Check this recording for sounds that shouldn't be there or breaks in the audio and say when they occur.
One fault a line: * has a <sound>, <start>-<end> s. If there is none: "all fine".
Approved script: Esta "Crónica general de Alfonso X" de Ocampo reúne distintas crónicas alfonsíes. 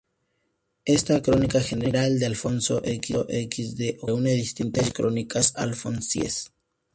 all fine